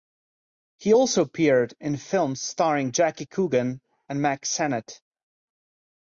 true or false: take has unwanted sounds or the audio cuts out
false